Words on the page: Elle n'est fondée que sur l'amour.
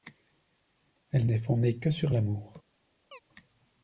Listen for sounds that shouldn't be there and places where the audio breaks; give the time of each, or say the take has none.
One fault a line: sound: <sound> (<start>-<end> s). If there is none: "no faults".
sound: chirp (3.1-3.2 s)